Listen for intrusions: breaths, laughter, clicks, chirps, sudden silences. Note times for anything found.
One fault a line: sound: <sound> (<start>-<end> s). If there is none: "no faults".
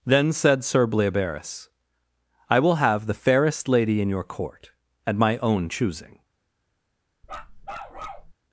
sound: bark (7.2-8.3 s)